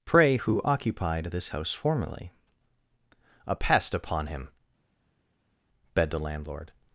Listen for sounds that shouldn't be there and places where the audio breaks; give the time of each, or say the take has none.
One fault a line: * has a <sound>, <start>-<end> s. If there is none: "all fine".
all fine